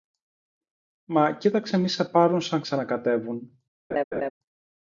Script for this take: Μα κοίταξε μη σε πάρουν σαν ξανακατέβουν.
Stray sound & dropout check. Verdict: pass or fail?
fail